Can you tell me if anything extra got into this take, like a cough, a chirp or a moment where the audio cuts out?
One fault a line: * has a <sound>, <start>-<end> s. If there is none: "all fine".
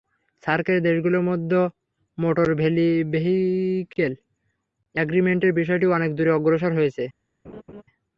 * has a laugh, 7.4-7.8 s